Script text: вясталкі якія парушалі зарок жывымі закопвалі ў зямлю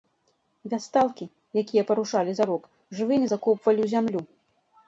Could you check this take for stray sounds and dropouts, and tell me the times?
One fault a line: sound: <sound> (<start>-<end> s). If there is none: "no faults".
no faults